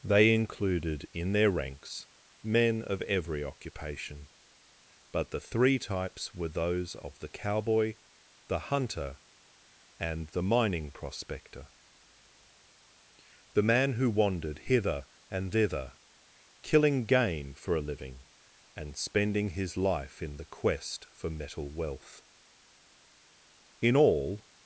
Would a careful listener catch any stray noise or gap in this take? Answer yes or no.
no